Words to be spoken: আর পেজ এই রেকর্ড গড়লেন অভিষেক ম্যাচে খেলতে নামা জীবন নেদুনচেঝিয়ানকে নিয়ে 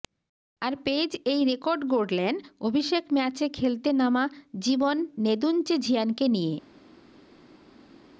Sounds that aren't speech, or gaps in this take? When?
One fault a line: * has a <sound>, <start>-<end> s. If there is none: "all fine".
all fine